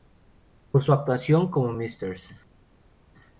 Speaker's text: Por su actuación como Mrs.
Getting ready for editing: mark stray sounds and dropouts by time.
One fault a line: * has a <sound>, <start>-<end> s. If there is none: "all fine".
all fine